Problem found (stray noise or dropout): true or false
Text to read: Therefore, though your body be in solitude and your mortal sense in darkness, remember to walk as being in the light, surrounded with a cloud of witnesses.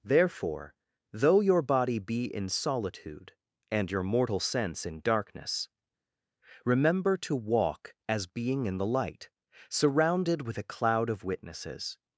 false